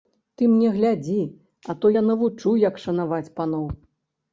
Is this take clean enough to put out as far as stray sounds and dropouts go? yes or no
yes